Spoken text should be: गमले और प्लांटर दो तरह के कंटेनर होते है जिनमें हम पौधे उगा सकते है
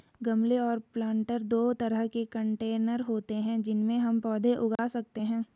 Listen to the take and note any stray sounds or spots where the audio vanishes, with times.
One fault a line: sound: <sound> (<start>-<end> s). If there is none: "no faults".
sound: dropout (4.8-4.8 s)